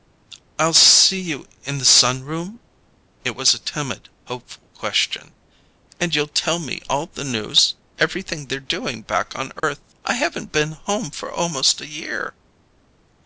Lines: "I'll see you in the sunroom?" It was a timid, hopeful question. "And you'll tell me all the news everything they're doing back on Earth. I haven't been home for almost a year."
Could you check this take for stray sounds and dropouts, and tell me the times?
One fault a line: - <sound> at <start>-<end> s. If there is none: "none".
- dropout at 9.6-9.6 s